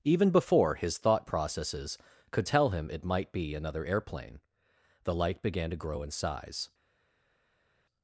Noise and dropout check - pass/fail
pass